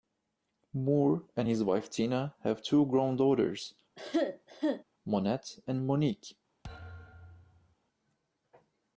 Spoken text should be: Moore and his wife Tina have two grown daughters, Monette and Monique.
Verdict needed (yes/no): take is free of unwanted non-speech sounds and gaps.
no